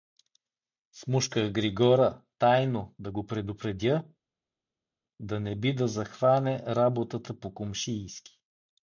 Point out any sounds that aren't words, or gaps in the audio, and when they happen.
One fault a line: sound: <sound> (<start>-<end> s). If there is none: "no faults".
no faults